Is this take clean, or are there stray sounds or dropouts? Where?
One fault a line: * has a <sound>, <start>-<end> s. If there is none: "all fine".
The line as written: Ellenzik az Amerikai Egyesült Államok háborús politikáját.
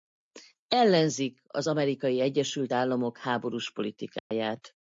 * has a dropout, 4.2-4.3 s